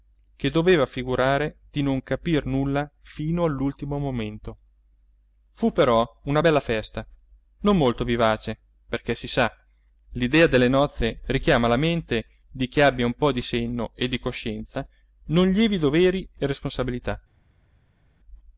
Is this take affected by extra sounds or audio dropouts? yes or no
no